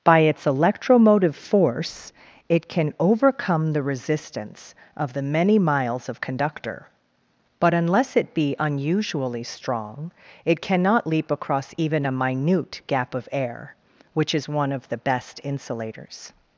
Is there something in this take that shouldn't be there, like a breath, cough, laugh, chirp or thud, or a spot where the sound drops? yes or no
no